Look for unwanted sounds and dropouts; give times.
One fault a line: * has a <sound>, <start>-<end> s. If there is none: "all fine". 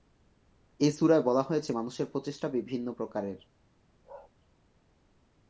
* has a bark, 4.0-4.3 s